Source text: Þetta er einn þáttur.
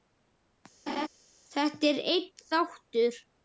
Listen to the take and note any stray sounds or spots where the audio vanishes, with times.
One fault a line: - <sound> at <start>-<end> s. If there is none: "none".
- laugh at 0.9-1.1 s